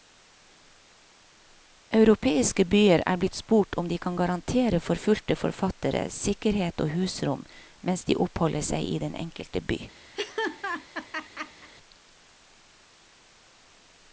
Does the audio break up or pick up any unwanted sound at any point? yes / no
yes